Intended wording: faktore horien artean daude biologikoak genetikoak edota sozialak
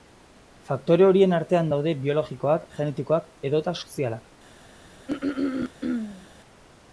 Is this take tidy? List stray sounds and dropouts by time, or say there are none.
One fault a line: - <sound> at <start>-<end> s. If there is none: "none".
- throat clearing at 5.1-6.3 s